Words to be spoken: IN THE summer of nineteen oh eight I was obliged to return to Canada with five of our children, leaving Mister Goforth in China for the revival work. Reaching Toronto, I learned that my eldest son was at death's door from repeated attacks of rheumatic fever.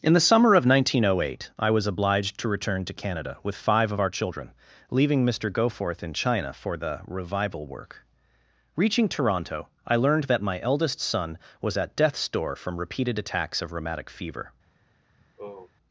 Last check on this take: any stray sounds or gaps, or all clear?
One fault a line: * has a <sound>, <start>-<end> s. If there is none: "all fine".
* has a sigh, 15.2-15.7 s